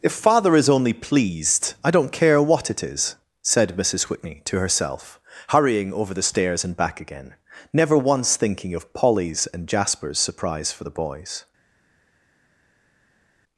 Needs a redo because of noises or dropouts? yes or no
no